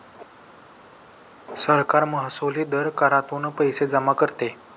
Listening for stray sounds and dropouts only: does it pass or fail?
pass